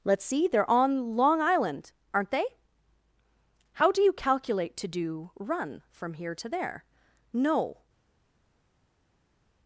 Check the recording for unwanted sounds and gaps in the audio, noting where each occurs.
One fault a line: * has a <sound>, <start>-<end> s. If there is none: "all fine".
all fine